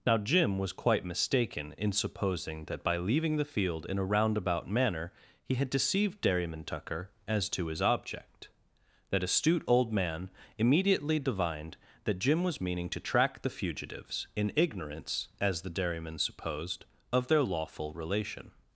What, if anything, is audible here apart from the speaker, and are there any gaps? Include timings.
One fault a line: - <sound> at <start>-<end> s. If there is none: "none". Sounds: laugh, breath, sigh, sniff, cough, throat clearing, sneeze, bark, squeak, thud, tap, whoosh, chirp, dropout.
none